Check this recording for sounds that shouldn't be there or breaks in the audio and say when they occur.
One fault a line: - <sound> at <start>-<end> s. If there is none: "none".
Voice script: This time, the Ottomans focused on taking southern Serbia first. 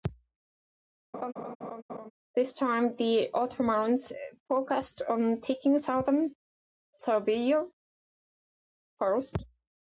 - laugh at 1.1-2.1 s